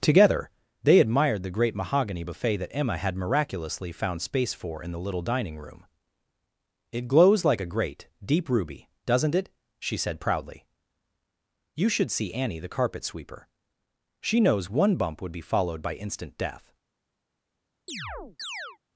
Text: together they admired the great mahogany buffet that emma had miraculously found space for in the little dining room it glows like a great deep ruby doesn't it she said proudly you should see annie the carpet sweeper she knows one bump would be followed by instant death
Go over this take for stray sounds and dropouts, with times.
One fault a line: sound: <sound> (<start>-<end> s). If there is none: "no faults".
sound: chirp (17.9-18.8 s)